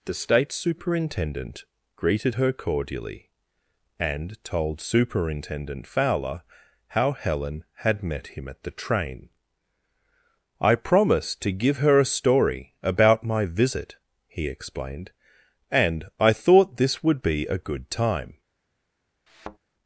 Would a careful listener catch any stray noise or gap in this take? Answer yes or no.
yes